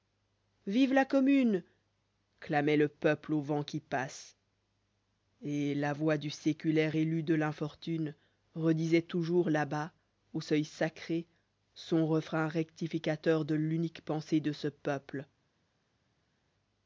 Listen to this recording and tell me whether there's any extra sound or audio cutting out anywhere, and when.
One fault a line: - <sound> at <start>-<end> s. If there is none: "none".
none